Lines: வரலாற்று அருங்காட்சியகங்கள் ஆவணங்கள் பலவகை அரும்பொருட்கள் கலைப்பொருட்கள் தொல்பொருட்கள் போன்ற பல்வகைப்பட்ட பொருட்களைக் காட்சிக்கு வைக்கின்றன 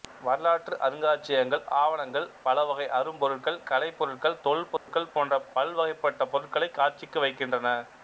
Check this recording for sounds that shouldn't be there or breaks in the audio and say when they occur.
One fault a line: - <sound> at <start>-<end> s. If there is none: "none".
- dropout at 4.8-4.9 s